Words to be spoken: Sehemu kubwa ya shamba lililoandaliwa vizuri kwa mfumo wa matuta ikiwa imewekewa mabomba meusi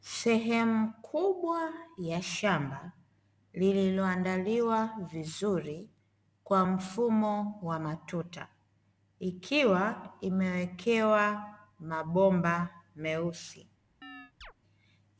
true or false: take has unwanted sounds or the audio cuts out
true